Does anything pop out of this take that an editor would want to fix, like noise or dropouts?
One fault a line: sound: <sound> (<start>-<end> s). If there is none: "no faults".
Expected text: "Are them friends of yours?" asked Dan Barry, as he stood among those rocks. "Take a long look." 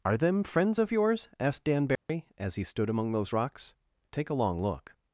sound: dropout (2.0-2.1 s)